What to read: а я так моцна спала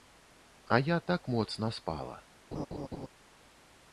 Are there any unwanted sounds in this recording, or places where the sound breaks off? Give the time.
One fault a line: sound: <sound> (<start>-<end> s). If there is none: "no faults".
sound: laugh (2.5-3.1 s)